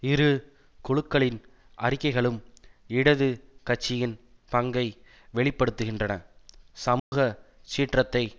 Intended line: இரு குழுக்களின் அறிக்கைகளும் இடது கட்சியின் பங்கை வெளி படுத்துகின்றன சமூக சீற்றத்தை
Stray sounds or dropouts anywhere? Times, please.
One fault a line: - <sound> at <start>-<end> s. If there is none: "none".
- dropout at 7.0-7.1 s